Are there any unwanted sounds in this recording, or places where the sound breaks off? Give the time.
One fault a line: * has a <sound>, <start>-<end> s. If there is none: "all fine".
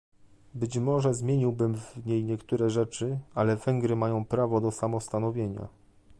all fine